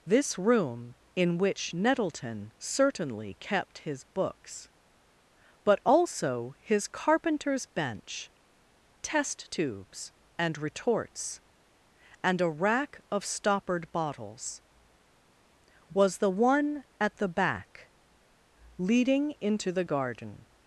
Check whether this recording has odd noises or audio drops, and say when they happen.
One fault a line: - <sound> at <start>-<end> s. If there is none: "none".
none